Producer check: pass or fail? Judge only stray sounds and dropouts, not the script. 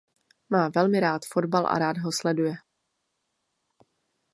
pass